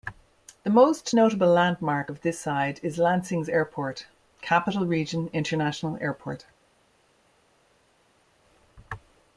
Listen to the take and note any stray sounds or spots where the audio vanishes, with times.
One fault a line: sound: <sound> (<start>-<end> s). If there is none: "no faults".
no faults